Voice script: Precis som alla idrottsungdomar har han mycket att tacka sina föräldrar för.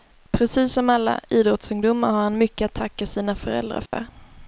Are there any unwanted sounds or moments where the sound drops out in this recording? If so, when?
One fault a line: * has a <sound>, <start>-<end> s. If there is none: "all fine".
* has a dropout, 3.9-3.9 s